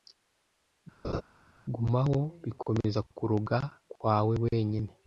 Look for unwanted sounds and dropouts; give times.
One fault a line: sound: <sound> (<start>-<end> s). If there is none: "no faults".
sound: laugh (1.0-1.2 s)